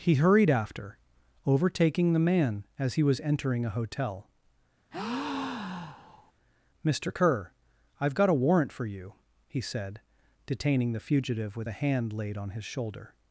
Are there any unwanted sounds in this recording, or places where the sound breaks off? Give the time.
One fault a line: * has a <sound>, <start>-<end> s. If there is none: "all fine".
* has a breath, 4.9-6.3 s